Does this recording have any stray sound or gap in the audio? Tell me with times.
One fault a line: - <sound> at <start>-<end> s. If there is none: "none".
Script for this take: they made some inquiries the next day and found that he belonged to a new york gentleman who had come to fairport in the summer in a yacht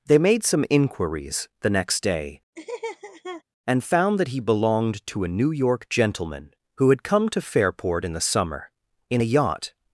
- laugh at 2.6-3.4 s